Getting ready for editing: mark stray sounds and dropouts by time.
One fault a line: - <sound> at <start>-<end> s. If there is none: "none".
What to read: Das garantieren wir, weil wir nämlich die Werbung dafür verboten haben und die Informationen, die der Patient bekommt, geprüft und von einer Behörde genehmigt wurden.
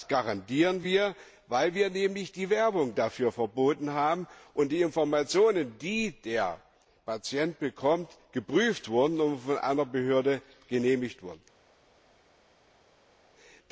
none